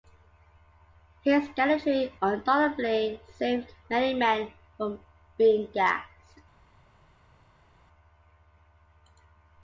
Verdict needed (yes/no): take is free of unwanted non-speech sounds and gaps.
yes